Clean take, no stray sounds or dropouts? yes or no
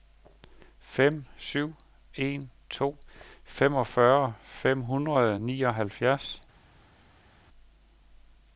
yes